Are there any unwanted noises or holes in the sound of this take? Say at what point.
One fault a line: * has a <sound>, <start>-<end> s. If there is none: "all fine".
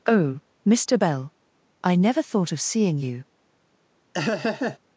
* has a laugh, 4.1-4.8 s